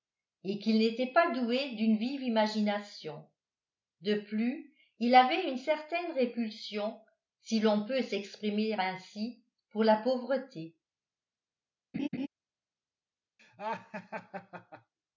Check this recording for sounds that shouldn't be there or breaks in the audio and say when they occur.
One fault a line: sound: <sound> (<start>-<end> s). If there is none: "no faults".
sound: laugh (11.9-12.3 s)
sound: laugh (13.4-14.9 s)